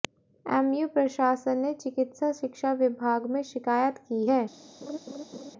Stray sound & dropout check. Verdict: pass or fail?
fail